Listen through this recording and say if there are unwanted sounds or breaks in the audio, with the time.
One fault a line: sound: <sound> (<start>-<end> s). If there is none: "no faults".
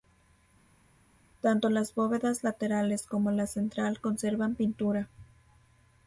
no faults